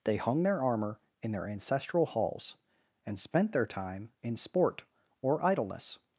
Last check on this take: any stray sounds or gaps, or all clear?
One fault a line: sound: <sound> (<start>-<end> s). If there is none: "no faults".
no faults